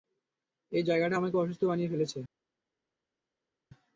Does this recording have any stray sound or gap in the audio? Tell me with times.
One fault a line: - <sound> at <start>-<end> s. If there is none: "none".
none